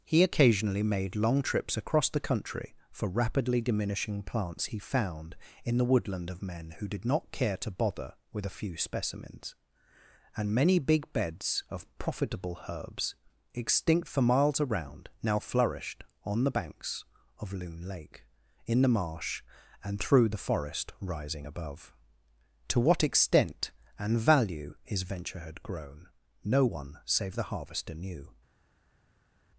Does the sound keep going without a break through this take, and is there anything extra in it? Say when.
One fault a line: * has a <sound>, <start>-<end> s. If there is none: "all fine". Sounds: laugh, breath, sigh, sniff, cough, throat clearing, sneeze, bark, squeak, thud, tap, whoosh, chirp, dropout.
all fine